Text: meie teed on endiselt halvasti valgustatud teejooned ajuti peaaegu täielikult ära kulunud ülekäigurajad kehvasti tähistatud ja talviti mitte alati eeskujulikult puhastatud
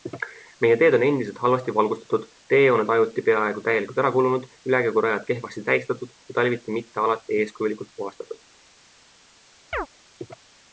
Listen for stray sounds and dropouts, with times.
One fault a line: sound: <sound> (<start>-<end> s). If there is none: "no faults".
sound: chirp (9.7-9.9 s)